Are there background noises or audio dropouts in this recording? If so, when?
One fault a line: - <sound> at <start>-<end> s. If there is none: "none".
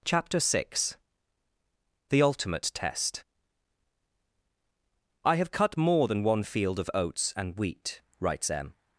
none